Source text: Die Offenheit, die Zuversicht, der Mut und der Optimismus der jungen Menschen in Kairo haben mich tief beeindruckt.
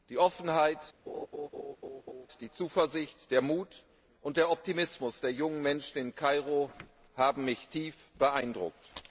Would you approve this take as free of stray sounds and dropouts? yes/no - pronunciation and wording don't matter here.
no